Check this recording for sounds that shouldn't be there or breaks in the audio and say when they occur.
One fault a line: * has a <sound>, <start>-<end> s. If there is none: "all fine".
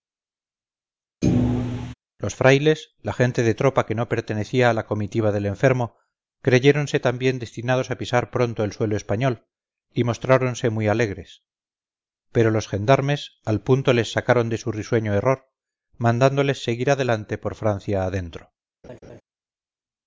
* has a thud, 1.2-1.9 s
* has a laugh, 18.8-19.2 s